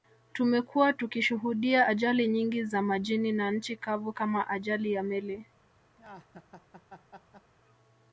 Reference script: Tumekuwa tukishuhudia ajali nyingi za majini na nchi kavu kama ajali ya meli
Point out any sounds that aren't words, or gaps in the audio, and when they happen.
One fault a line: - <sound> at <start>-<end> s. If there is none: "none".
- laugh at 6.0-7.5 s